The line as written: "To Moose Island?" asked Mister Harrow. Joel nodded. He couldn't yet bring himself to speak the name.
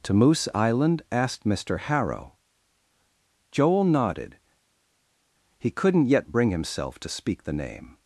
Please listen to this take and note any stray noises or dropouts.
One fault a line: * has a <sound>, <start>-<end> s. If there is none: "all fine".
all fine